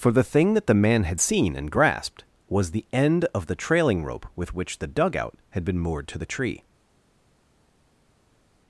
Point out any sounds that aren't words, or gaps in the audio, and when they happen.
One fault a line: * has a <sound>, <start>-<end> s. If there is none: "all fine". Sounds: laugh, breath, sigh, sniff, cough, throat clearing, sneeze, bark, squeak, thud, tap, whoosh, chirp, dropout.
all fine